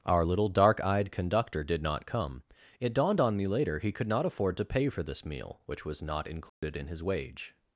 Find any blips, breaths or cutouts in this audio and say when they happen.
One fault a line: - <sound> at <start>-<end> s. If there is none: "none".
- dropout at 6.5-6.6 s